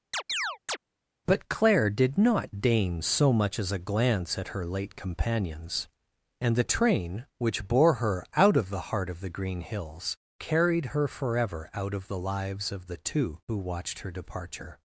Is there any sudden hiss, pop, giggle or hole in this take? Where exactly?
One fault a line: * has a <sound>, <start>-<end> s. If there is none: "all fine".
* has a chirp, 0.1-0.8 s